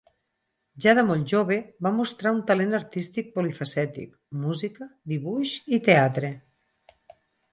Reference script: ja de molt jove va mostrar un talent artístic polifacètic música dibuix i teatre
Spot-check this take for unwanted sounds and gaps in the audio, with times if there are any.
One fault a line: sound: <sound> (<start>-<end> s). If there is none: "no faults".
no faults